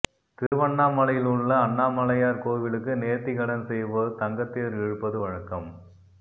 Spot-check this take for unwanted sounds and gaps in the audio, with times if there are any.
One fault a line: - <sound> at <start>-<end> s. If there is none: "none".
- dropout at 0.5-0.5 s